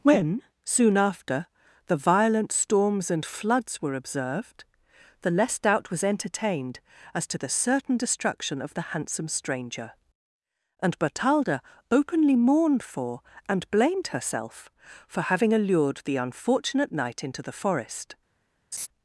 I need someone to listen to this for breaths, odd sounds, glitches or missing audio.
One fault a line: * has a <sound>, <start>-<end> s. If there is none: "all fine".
* has a laugh, 18.7-18.9 s